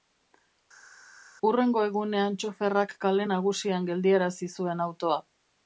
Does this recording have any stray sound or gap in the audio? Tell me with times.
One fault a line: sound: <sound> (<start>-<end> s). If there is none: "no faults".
no faults